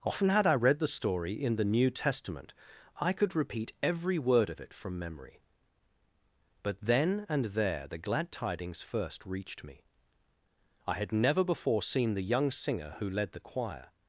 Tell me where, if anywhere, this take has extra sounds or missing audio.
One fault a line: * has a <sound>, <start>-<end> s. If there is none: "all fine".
all fine